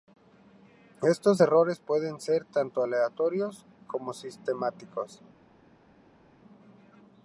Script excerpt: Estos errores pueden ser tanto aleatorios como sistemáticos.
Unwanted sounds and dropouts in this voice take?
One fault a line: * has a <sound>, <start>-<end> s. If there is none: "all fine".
all fine